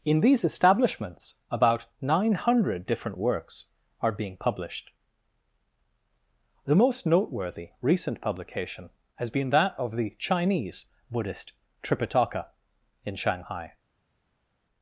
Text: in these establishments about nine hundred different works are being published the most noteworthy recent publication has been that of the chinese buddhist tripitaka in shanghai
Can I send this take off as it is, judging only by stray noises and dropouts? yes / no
yes